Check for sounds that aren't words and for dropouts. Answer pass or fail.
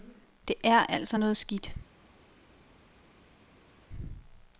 pass